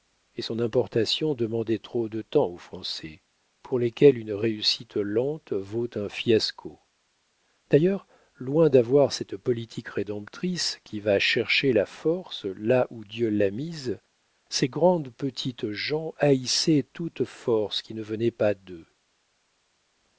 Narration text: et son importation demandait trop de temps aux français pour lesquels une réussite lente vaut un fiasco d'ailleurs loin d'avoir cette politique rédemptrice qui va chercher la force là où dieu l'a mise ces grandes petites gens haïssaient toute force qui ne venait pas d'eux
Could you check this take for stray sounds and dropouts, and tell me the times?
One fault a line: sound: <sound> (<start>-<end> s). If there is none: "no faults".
no faults